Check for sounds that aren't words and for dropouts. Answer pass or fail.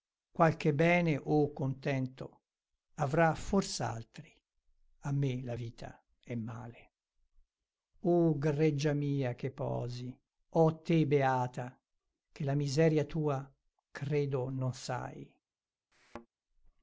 fail